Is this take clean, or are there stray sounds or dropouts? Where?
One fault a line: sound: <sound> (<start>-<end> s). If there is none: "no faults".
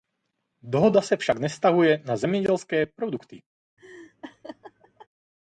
sound: laugh (3.8-5.1 s)